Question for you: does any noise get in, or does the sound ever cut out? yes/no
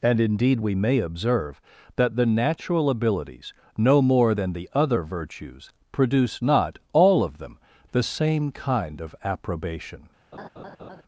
yes